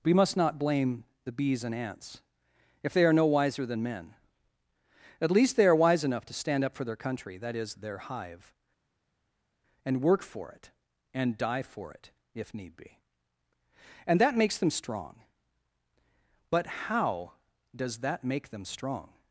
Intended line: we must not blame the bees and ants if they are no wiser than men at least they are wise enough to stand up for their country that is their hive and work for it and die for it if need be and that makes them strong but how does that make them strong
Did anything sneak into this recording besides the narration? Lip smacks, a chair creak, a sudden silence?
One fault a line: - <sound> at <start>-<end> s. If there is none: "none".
none